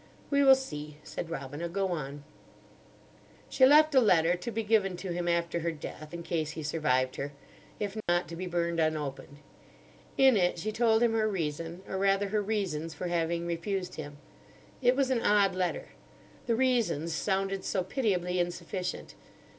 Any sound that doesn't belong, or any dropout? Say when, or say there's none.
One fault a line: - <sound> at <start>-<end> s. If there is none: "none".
- dropout at 8.0-8.1 s